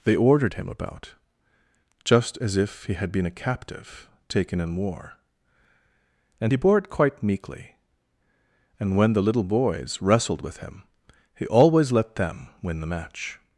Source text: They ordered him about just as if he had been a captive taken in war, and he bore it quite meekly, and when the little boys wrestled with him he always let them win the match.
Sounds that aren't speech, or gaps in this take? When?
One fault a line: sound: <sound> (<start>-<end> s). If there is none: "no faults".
no faults